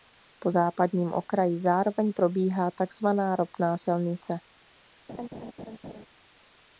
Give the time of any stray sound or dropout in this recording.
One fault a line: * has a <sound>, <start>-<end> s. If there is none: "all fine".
* has a laugh, 5.1-6.1 s